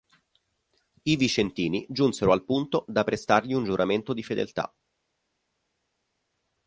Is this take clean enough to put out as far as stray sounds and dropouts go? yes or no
yes